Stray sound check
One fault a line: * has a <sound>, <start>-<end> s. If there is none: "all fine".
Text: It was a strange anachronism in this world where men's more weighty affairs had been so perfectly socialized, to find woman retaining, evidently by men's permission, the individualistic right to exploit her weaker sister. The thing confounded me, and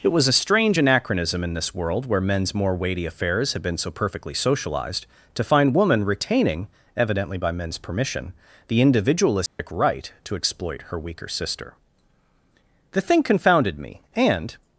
* has a dropout, 9.5-9.6 s